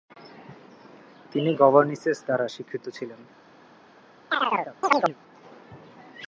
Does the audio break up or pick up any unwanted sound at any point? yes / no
yes